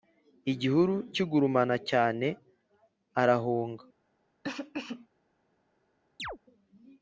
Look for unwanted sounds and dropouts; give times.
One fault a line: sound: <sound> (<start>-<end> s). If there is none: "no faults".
sound: cough (4.4-5.1 s)
sound: chirp (6.2-6.4 s)